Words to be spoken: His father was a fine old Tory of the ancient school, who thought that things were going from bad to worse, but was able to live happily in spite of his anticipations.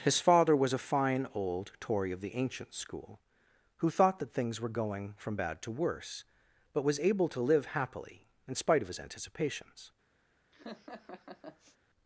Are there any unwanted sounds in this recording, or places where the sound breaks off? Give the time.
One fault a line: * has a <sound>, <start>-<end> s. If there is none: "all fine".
* has a laugh, 10.5-11.8 s